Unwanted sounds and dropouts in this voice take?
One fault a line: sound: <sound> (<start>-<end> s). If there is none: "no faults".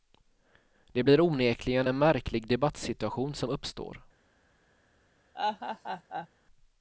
sound: laugh (5.3-6.3 s)